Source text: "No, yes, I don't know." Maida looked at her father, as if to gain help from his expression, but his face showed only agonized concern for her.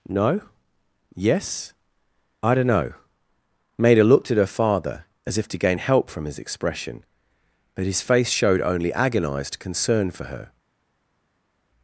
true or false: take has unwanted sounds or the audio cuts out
false